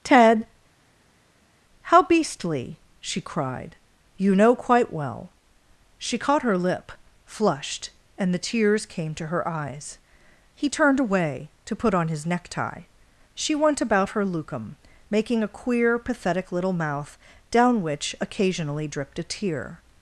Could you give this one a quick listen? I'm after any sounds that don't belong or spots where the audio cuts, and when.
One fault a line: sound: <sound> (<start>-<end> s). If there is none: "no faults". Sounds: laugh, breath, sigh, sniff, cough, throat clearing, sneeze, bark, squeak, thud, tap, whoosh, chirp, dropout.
no faults